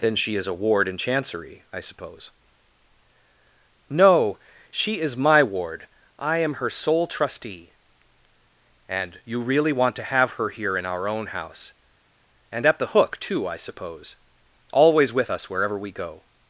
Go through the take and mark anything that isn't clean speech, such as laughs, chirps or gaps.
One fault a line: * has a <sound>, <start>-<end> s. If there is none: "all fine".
all fine